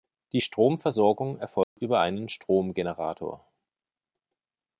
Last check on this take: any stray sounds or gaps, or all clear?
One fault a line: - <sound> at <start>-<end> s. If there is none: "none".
- dropout at 1.6-1.8 s